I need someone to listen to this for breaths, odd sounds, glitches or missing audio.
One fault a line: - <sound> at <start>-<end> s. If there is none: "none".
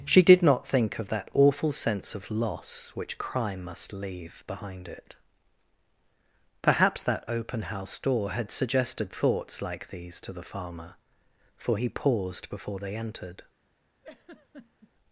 - laugh at 14.0-14.9 s